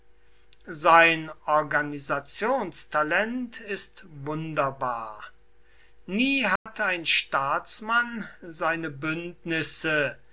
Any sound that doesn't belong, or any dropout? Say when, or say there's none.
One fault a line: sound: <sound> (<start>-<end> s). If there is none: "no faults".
sound: dropout (6.6-6.7 s)